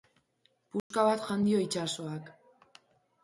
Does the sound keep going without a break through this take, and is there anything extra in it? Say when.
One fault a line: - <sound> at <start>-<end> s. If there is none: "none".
- dropout at 0.8-0.9 s